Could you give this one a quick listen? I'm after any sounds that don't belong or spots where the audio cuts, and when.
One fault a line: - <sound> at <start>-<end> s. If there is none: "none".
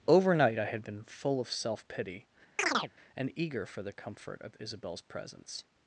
- chirp at 2.6-2.9 s